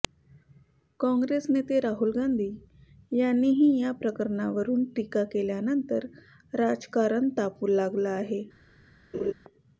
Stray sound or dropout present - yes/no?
yes